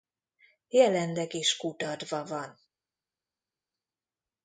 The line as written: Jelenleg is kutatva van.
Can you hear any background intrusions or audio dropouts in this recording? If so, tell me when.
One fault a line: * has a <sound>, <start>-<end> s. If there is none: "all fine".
all fine